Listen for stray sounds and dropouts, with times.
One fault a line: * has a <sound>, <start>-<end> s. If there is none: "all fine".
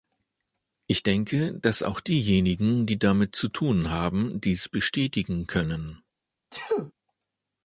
* has a sneeze, 6.5-6.9 s